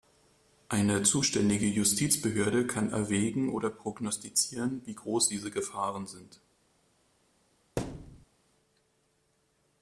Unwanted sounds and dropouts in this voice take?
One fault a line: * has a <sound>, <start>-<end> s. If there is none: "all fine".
* has a thud, 7.8-8.3 s